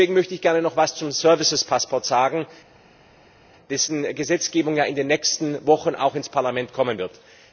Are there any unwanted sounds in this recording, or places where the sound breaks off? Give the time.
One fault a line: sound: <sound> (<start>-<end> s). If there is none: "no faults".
no faults